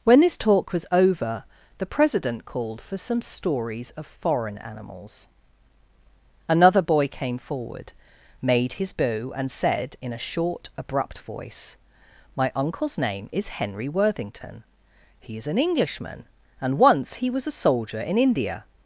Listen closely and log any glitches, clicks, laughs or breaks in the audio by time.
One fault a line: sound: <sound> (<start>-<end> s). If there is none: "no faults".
no faults